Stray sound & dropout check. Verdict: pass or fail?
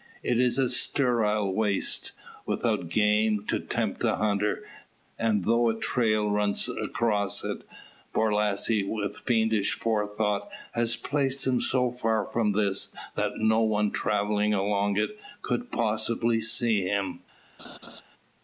fail